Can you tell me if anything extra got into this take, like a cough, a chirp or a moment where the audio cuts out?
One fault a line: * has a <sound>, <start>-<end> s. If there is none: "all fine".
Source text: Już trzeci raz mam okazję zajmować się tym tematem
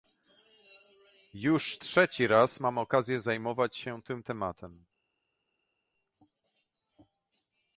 all fine